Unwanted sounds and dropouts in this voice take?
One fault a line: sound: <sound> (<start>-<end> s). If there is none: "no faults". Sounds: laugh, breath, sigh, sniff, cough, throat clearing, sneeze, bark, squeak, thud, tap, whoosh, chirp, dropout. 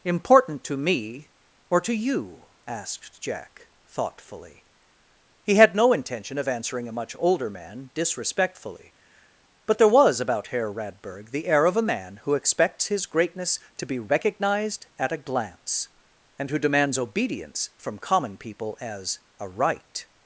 no faults